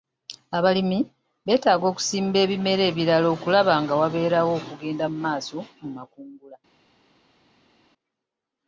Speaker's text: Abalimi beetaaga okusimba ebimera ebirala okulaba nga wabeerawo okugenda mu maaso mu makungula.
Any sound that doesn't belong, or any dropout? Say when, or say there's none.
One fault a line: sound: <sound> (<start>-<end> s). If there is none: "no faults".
no faults